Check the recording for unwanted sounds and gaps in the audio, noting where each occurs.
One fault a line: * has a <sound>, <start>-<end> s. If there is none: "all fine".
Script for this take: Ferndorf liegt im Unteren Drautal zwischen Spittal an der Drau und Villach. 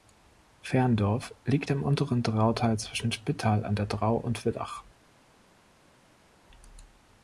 all fine